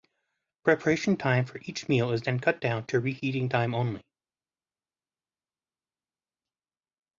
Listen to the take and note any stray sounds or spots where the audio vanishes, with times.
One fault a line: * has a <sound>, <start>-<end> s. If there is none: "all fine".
all fine